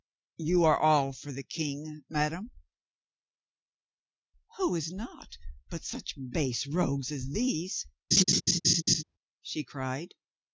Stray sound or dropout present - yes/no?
yes